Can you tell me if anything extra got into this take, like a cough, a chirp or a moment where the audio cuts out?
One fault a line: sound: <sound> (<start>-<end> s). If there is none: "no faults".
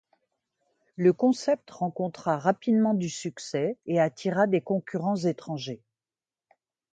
no faults